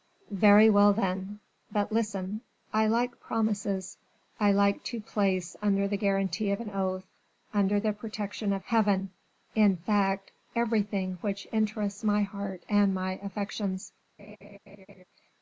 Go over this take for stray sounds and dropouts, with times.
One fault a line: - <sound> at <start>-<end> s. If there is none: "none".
- laugh at 14.2-15.0 s